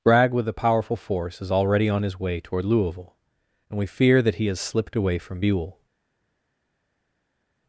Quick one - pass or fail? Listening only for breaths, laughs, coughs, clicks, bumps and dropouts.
pass